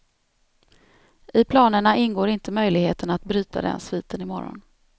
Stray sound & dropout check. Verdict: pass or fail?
pass